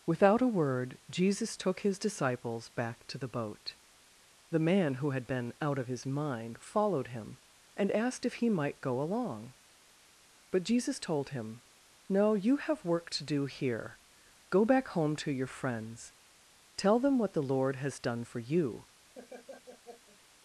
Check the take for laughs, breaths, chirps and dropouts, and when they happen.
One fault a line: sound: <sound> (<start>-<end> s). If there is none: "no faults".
sound: laugh (19.1-20.2 s)